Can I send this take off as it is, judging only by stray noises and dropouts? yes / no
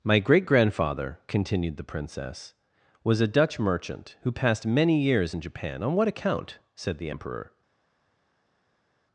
yes